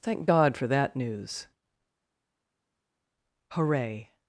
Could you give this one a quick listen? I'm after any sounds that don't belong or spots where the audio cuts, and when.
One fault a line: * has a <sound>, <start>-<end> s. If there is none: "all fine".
all fine